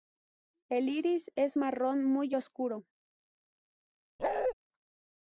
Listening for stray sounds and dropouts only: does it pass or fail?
fail